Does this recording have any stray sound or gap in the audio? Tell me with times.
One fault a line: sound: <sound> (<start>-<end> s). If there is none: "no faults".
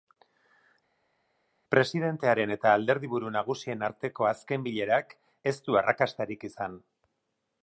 no faults